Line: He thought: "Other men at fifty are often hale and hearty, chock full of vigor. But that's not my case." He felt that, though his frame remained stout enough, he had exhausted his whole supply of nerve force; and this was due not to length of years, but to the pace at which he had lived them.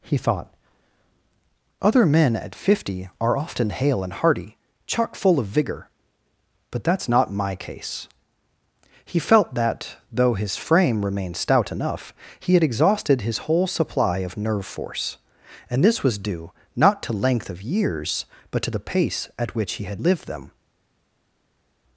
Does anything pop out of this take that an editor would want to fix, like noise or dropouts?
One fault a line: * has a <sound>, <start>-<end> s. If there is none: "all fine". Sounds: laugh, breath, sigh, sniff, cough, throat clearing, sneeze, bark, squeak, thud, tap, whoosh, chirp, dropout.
all fine